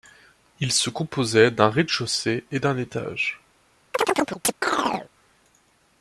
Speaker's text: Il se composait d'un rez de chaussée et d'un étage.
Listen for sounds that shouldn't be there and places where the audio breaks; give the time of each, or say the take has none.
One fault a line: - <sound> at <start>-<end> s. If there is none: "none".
- chirp at 3.9-5.1 s